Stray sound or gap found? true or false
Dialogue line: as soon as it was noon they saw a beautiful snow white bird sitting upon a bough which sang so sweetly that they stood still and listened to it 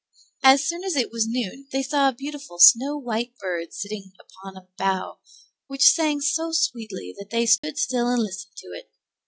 true